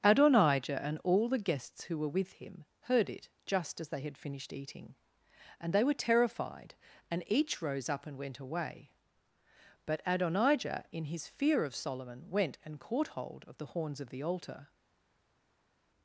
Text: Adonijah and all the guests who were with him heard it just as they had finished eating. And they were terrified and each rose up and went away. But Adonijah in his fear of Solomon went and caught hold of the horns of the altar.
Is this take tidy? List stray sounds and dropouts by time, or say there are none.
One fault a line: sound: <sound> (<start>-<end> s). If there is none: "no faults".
no faults